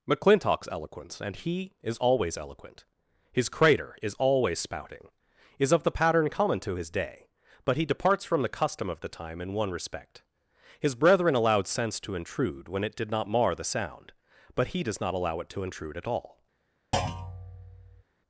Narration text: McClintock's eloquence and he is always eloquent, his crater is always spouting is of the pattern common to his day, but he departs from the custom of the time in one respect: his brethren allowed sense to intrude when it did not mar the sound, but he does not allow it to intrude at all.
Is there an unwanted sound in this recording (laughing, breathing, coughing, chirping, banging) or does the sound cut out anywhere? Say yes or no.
yes